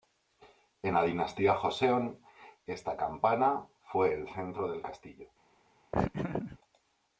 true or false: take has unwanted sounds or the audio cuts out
true